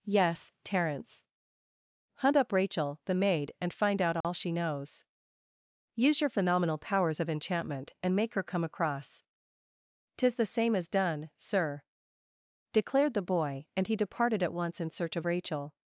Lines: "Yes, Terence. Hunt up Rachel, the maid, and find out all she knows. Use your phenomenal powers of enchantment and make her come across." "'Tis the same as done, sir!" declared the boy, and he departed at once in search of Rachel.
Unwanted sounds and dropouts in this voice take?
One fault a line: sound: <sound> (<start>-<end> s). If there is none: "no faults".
sound: dropout (4.2-4.2 s)